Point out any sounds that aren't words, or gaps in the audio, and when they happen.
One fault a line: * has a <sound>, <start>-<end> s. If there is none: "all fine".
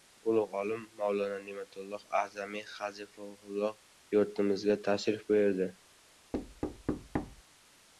* has a thud, 6.3-7.4 s